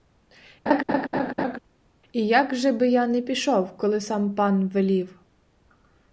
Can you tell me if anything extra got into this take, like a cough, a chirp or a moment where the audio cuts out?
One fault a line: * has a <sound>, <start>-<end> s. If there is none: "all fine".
* has a laugh, 0.7-1.6 s